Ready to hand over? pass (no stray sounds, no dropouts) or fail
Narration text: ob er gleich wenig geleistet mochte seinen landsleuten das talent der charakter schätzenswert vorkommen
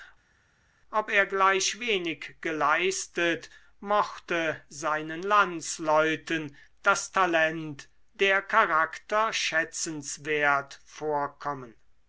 pass